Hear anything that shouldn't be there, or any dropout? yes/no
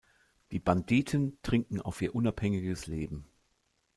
no